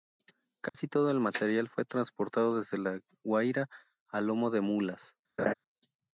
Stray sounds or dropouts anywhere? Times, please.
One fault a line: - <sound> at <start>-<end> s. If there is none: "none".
- dropout at 0.7-0.7 s
- laugh at 5.4-5.5 s